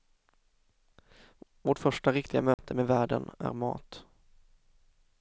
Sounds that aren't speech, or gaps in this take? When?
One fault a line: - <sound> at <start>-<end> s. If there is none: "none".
- dropout at 2.5-2.6 s